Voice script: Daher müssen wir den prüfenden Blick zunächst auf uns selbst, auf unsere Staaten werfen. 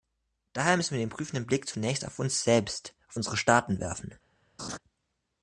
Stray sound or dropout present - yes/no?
yes